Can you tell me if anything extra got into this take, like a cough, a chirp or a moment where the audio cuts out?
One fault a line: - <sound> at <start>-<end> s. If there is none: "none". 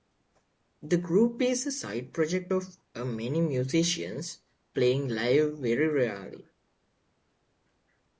none